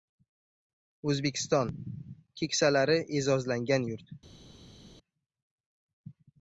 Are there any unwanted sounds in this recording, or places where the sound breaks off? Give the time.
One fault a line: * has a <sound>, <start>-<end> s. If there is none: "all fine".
all fine